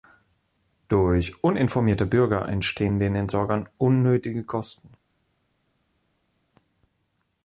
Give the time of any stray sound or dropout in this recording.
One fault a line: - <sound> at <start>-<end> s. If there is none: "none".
none